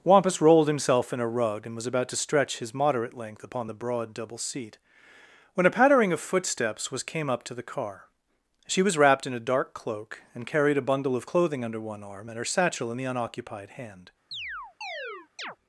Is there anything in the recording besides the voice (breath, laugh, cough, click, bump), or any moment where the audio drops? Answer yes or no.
yes